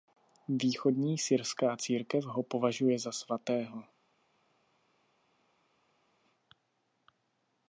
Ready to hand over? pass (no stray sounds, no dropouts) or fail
pass